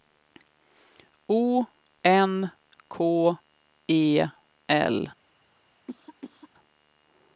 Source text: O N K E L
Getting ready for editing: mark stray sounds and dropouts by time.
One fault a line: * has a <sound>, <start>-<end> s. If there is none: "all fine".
* has a cough, 5.9-6.5 s